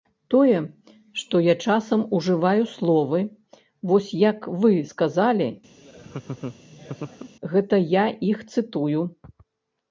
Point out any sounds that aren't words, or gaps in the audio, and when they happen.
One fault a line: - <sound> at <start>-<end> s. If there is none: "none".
- laugh at 5.8-7.3 s